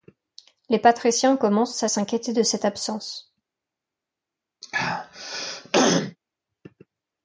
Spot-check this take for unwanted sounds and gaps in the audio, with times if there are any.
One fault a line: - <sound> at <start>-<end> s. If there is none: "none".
- throat clearing at 4.6-6.2 s